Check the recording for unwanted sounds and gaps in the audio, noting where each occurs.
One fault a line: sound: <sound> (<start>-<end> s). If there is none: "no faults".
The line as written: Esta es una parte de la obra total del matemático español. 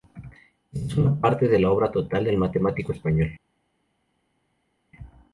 no faults